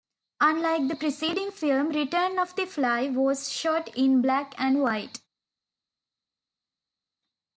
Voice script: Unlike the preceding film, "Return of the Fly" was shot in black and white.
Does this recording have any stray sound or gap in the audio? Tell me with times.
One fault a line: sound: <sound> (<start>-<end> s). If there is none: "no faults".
no faults